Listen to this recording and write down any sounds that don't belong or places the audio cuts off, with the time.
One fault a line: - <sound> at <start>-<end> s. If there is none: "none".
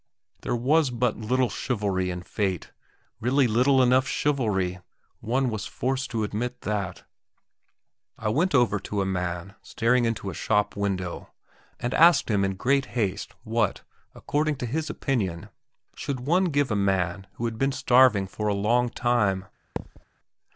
- thud at 19.8-20.0 s